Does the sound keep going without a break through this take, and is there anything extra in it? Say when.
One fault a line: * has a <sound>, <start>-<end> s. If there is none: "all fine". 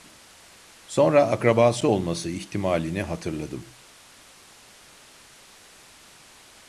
all fine